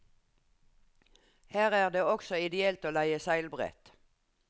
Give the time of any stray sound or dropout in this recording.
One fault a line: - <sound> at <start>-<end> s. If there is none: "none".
none